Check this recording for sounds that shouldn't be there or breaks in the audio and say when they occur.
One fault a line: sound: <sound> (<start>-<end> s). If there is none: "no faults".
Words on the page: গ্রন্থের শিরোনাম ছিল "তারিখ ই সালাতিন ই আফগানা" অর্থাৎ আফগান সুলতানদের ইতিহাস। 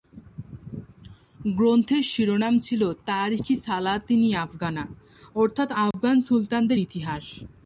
sound: dropout (5.9-5.9 s)